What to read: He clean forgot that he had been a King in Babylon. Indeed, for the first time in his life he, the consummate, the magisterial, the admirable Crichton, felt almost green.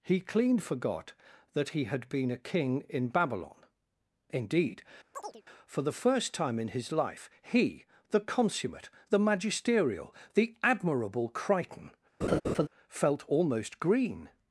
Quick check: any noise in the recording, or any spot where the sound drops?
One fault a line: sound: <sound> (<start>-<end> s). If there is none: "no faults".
sound: chirp (5.1-5.4 s)
sound: laugh (12.2-12.7 s)